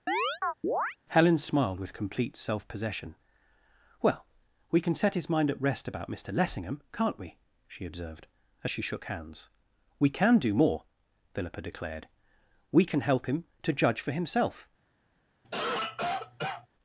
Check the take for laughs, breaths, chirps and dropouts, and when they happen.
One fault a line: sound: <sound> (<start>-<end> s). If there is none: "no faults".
sound: chirp (0.1-1.0 s)
sound: cough (15.4-16.7 s)